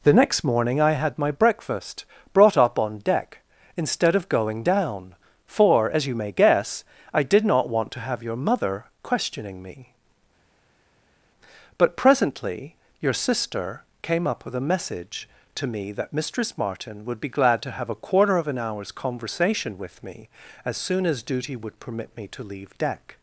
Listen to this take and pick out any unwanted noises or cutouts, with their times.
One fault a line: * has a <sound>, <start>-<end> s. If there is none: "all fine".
all fine